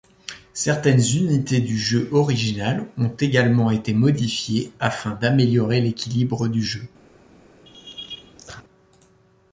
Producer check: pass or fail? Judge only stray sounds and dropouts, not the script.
fail